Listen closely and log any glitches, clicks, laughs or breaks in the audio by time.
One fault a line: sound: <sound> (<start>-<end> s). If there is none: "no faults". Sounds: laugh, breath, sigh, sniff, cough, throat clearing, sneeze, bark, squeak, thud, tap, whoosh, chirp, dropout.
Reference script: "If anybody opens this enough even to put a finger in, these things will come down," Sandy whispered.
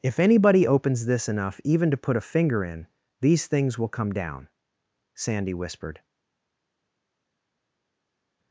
no faults